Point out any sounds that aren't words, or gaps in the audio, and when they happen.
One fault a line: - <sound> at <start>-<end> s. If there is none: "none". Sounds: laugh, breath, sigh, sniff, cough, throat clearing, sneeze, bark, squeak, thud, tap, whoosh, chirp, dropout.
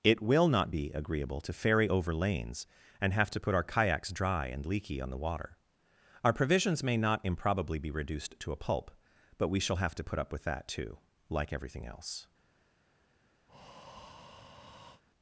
- breath at 13.5-15.0 s